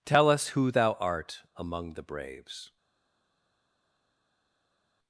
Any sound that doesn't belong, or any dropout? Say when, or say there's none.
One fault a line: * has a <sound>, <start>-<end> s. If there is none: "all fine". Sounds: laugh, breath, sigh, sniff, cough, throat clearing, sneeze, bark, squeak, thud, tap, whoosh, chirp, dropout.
all fine